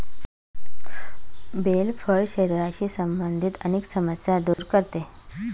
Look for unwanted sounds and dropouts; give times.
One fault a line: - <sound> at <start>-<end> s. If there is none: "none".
- dropout at 4.5-4.6 s